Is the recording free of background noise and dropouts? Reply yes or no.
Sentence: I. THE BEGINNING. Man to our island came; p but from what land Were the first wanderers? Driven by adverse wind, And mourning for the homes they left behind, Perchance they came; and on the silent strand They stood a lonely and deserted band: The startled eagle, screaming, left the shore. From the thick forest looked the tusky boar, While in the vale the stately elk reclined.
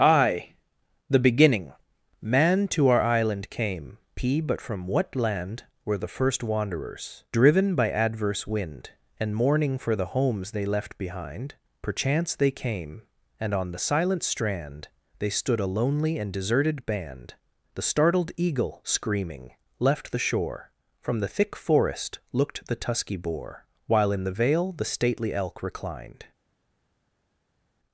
yes